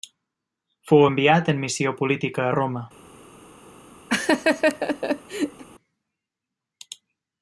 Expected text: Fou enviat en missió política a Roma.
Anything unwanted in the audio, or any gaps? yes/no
yes